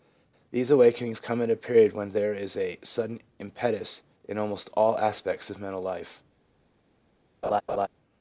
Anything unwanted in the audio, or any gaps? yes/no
yes